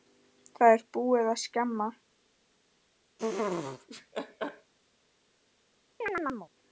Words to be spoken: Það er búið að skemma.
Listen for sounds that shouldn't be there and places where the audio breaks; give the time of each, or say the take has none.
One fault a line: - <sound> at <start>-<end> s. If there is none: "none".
- laugh at 3.2-4.7 s
- chirp at 6.0-6.5 s